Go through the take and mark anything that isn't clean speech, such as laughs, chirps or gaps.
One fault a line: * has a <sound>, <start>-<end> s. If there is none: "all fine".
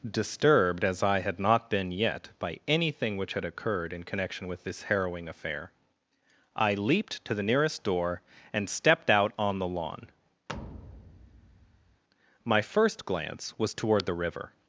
* has a thud, 10.5-12.0 s